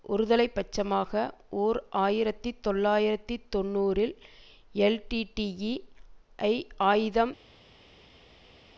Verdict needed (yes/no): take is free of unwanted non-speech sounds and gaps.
yes